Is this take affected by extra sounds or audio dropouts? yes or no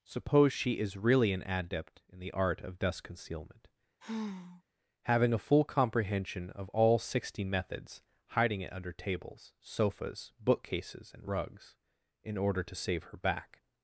yes